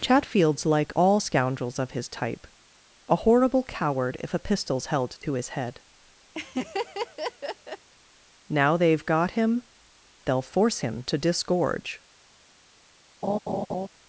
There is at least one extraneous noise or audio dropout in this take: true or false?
true